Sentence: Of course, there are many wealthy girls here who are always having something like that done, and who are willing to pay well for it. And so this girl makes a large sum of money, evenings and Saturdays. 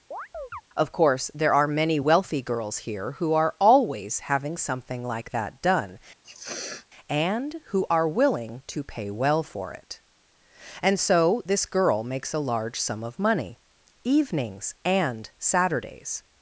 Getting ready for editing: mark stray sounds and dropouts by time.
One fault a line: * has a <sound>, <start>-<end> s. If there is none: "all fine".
* has a chirp, 0.1-0.6 s
* has a sniff, 6.2-6.9 s